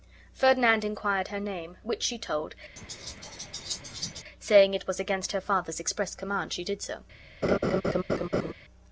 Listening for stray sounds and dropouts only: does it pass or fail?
fail